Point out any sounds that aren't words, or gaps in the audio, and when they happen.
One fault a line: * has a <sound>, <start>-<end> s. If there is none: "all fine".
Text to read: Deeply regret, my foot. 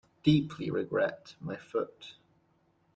all fine